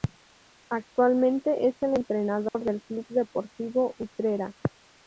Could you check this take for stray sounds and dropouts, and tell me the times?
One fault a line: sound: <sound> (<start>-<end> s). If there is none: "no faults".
sound: dropout (2.5-2.5 s)